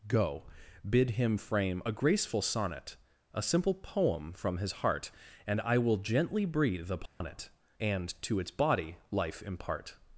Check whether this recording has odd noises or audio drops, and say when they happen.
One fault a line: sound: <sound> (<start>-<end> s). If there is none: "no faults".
sound: dropout (7.1-7.2 s)